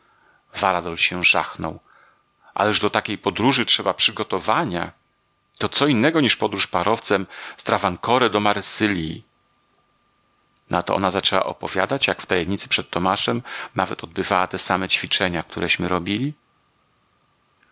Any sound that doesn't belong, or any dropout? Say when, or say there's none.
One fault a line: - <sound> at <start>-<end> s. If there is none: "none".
none